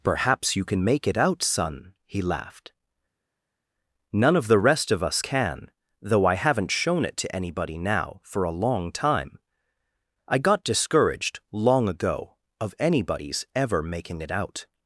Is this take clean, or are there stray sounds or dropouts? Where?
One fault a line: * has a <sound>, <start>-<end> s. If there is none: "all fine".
all fine